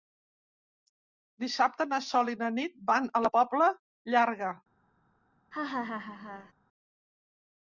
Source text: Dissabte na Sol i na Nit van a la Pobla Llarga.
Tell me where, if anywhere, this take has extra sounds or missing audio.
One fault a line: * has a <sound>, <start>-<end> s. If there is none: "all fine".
* has a laugh, 5.5-6.5 s